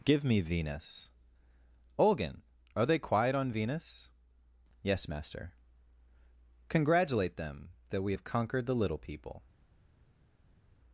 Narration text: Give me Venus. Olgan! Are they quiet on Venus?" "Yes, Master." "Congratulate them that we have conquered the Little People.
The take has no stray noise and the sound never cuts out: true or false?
true